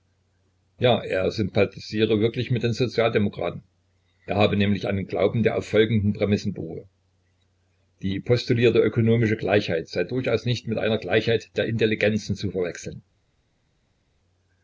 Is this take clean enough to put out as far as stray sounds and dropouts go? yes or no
yes